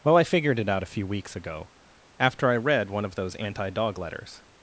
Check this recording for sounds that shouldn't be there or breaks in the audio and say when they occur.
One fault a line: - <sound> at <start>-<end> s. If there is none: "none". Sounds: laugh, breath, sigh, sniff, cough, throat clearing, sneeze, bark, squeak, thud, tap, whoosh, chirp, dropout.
none